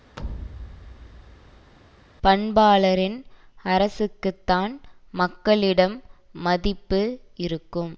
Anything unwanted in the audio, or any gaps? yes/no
yes